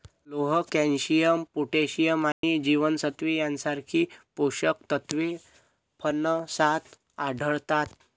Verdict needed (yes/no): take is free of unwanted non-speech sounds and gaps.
no